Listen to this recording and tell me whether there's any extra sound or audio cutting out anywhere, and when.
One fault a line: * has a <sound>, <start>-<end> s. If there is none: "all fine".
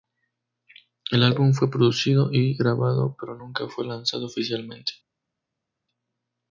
all fine